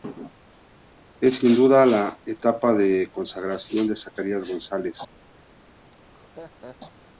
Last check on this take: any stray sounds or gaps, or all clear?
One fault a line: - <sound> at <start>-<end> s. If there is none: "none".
- laugh at 5.9-6.8 s